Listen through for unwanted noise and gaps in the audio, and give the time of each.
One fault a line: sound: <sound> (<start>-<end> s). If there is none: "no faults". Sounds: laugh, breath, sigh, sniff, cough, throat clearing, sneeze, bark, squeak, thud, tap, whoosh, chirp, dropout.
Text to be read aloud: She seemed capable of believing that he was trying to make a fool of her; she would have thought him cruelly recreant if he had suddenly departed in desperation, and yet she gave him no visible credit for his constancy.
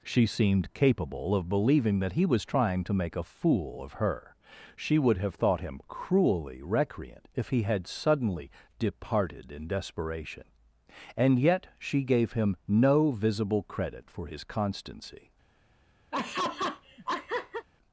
sound: laugh (16.1-17.7 s)